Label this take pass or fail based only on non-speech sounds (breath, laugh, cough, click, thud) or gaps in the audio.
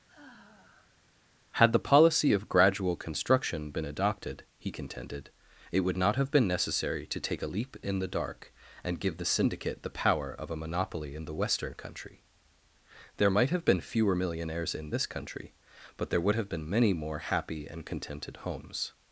fail